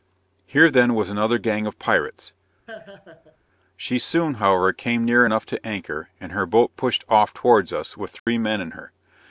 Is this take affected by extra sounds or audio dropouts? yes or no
yes